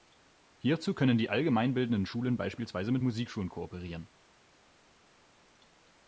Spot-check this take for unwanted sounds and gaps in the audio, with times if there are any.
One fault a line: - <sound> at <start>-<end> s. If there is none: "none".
none